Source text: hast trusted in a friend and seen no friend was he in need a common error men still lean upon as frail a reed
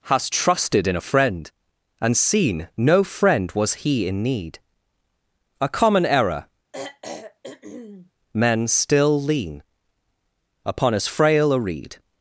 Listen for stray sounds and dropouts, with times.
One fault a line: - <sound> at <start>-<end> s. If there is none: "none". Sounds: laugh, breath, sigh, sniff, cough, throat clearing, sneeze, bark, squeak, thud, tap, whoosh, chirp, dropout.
- throat clearing at 6.7-8.1 s